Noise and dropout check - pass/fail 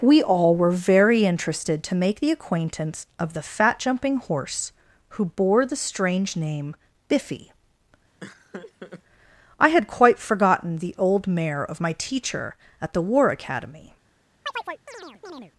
fail